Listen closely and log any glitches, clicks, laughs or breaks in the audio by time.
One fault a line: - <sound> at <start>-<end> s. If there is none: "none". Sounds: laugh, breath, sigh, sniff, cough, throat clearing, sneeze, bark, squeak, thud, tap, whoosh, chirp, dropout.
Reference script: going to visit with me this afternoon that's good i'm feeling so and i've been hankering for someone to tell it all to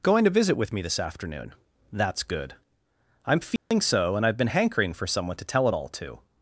- dropout at 3.6-3.7 s